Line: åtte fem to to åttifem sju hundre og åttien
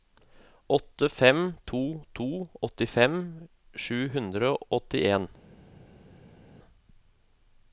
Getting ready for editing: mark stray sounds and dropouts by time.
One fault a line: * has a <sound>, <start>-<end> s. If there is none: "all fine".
all fine